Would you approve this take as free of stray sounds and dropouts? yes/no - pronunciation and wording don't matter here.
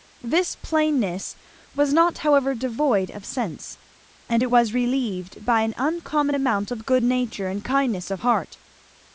yes